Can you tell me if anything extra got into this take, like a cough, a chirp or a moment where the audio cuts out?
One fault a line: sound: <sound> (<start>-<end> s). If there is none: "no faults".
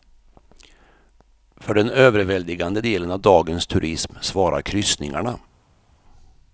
no faults